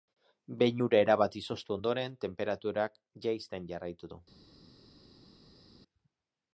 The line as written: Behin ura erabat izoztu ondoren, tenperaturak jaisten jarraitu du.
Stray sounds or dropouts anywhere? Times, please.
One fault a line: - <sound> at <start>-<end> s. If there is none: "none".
none